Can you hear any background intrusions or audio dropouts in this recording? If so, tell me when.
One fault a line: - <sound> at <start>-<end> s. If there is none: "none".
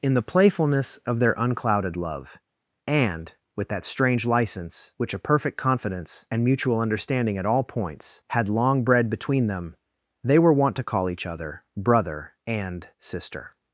none